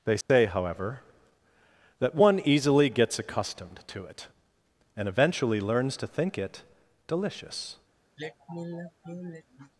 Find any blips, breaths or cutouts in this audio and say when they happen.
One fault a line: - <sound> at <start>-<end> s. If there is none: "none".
- dropout at 0.2-0.3 s
- sigh at 8.2-9.7 s